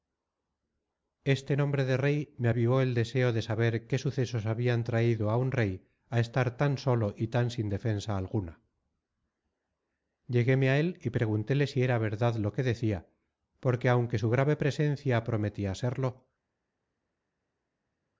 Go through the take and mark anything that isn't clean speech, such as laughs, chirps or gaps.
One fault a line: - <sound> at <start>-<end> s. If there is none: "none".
none